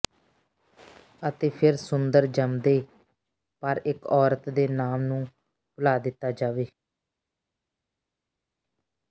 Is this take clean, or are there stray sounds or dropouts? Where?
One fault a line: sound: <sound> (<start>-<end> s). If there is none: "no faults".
no faults